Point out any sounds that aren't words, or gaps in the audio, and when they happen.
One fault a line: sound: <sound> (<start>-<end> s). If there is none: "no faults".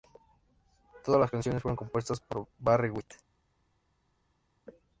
no faults